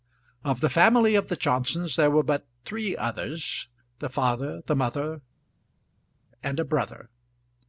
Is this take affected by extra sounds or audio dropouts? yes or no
no